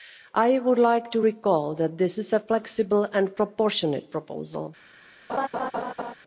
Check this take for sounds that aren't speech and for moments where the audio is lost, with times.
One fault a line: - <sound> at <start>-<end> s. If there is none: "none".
- laugh at 5.3-6.1 s